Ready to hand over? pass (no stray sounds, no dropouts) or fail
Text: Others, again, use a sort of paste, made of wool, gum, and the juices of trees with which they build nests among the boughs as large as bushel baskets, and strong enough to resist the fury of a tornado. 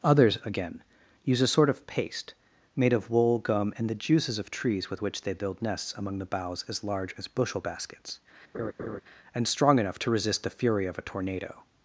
fail